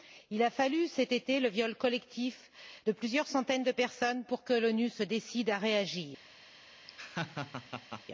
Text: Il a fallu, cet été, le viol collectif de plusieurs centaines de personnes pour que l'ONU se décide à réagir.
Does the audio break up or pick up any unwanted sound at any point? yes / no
yes